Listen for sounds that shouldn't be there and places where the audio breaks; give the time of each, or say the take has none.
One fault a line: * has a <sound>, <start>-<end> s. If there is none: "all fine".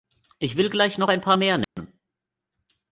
* has a dropout, 1.6-1.8 s